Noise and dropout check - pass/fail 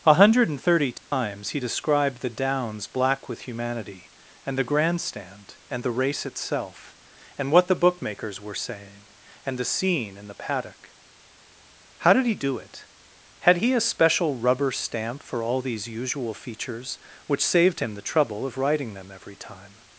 fail